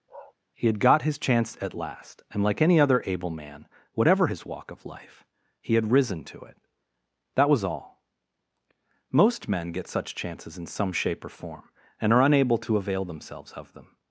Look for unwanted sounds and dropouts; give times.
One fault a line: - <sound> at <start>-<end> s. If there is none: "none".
- bark at 0.1-0.3 s